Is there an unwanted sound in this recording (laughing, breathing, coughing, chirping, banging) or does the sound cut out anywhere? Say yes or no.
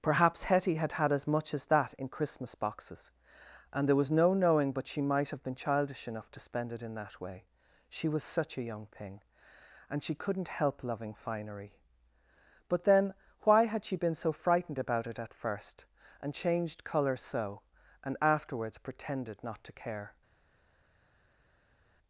no